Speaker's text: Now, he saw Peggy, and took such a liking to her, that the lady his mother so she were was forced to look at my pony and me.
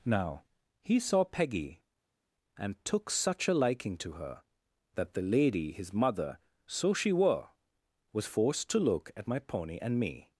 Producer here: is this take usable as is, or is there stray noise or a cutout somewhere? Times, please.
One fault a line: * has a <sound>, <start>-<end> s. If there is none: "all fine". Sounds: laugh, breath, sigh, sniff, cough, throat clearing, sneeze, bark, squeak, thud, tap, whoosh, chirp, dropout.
all fine